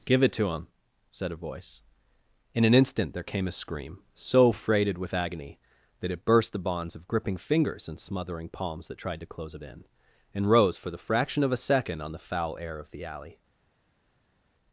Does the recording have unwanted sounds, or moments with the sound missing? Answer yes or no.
no